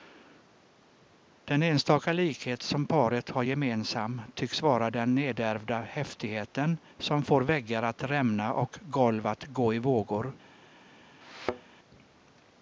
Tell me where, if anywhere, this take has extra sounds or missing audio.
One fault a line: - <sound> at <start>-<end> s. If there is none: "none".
- thud at 11.2-11.7 s